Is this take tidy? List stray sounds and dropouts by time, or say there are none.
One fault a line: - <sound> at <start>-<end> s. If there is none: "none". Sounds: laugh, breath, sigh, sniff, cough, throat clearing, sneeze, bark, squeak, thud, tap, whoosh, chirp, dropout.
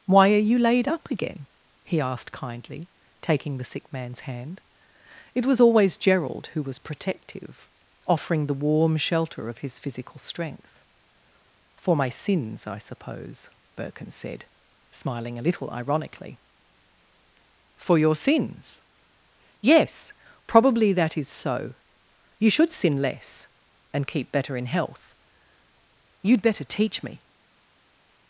none